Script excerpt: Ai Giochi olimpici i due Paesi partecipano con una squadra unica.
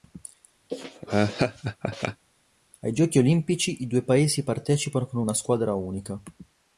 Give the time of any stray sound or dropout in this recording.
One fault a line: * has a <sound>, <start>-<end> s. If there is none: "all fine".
* has a laugh, 0.7-2.2 s